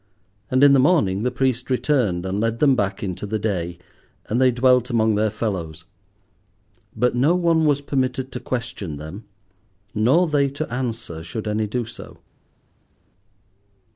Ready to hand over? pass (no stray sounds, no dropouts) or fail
pass